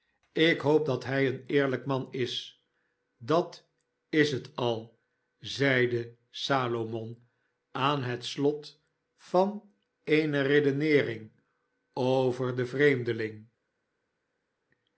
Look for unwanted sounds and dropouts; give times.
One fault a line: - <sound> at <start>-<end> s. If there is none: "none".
none